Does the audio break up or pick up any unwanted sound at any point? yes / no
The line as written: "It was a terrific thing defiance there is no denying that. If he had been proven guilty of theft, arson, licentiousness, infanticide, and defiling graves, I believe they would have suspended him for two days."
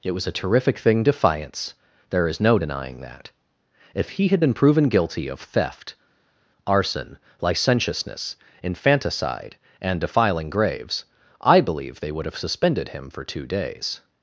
no